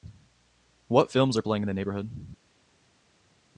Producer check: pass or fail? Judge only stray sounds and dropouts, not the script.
pass